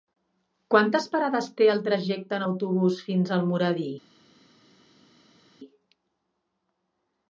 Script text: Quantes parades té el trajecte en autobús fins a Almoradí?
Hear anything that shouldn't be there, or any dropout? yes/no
no